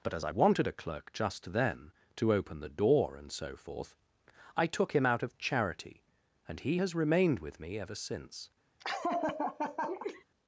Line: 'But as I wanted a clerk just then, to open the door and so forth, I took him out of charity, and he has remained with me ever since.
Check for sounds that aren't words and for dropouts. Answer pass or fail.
fail